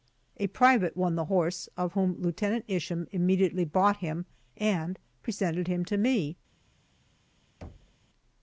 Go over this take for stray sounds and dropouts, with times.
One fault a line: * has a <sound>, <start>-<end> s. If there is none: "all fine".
* has a thud, 7.6-8.0 s